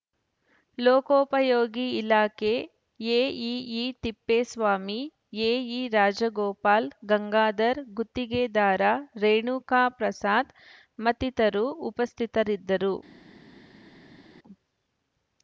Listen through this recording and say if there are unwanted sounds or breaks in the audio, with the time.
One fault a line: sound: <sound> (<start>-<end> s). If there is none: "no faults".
no faults